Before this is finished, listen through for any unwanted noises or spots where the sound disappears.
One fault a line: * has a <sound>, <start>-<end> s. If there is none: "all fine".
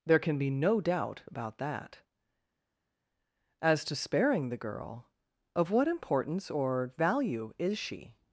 all fine